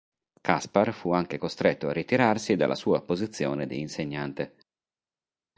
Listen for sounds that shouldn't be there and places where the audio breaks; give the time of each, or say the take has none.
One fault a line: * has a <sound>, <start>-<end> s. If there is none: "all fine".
all fine